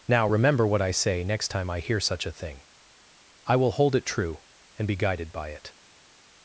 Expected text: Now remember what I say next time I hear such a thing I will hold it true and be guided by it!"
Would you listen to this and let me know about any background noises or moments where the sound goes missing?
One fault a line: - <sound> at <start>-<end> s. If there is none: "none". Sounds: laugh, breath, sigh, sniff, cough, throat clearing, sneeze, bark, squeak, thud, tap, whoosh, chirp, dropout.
none